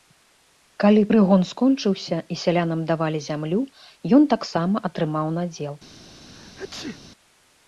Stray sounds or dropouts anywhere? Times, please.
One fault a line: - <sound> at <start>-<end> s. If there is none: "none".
- sneeze at 6.3-7.0 s